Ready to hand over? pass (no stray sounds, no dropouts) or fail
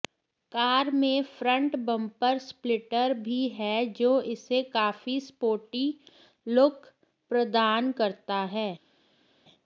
pass